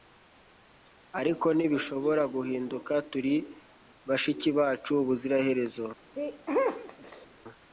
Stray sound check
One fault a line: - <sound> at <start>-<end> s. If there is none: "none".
- sneeze at 6.2-7.3 s